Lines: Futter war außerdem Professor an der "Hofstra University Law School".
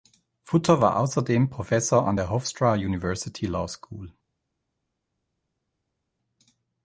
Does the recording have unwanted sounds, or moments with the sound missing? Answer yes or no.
no